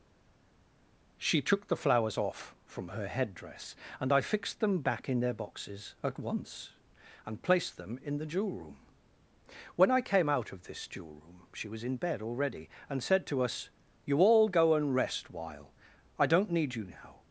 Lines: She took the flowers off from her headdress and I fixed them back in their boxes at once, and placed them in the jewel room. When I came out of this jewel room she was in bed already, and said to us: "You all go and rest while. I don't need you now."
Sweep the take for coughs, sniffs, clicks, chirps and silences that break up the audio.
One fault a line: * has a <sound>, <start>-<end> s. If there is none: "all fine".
all fine